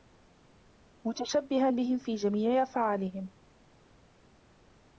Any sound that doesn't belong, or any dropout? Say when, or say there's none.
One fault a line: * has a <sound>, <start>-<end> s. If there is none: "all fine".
all fine